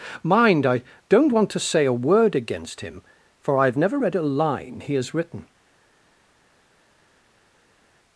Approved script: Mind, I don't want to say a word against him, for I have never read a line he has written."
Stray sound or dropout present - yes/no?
no